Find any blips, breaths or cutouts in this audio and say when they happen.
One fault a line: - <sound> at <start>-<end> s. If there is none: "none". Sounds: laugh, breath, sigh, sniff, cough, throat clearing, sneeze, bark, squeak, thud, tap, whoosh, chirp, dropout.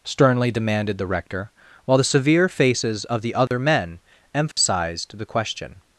- dropout at 3.5-3.5 s
- dropout at 4.5-4.6 s